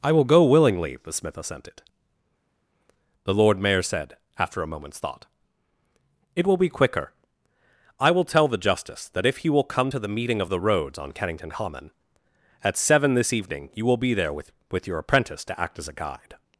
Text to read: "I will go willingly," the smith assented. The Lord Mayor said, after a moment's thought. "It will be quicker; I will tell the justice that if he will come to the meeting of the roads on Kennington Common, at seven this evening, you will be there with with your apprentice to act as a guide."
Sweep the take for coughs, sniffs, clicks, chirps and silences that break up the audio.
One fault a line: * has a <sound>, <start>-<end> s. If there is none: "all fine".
all fine